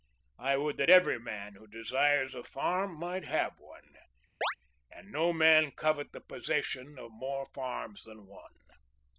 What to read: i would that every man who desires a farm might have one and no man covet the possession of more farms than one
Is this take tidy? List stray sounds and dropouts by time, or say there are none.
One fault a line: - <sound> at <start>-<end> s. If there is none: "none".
- chirp at 4.4-4.6 s